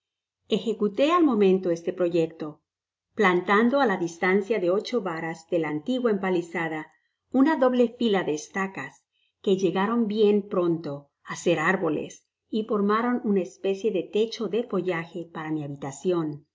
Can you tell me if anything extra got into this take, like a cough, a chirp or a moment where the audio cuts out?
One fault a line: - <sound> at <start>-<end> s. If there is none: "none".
none